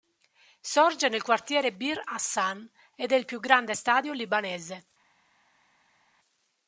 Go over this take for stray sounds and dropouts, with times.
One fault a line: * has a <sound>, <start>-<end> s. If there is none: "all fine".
all fine